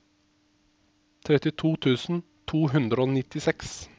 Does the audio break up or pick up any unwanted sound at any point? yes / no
no